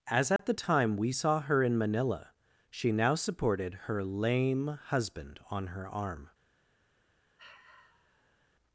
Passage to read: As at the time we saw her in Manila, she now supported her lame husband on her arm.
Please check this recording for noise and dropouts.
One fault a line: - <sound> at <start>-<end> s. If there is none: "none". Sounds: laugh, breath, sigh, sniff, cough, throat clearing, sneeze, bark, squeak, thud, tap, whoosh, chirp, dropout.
- dropout at 0.4-0.4 s
- sigh at 7.4-8.5 s